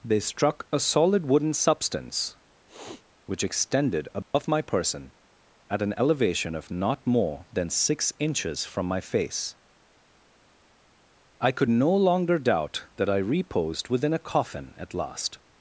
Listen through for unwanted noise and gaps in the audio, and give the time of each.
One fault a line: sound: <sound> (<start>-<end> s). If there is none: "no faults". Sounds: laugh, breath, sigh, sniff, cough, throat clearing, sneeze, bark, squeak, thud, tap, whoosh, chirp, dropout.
sound: sniff (2.7-3.0 s)
sound: dropout (4.2-4.3 s)